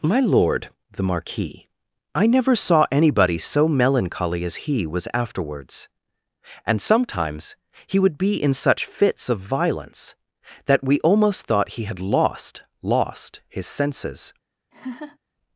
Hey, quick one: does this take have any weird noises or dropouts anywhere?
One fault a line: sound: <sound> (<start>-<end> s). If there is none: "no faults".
sound: laugh (14.7-15.2 s)